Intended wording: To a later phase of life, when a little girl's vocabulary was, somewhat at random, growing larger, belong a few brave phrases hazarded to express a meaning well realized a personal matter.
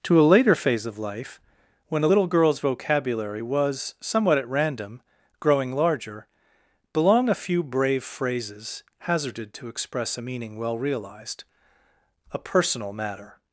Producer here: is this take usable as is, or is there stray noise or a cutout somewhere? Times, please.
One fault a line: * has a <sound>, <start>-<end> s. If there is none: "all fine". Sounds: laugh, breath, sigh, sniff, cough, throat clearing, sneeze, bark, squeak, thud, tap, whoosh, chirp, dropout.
all fine